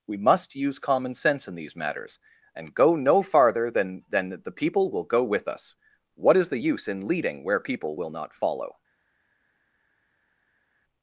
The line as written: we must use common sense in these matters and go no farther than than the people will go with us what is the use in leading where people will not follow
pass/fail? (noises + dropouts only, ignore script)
pass